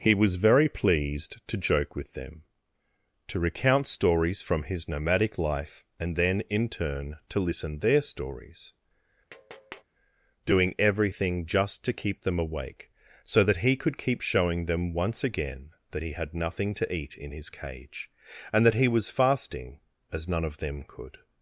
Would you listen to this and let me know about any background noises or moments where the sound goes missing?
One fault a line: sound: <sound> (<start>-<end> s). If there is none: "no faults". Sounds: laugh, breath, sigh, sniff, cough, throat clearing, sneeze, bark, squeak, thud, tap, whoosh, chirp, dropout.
sound: tap (9.3-9.8 s)